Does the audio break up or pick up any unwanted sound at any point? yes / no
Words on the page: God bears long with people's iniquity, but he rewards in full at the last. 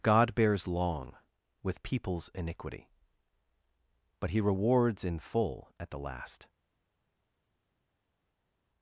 no